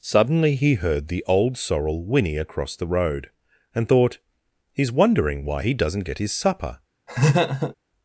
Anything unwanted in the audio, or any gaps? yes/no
yes